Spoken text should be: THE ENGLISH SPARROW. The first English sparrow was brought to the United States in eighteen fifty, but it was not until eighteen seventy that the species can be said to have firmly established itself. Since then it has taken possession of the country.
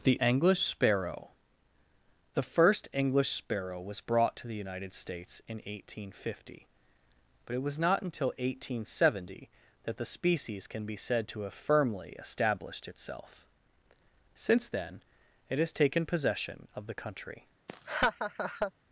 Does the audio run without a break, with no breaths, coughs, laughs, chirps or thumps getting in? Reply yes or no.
no